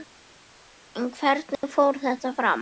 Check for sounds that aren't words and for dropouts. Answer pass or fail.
fail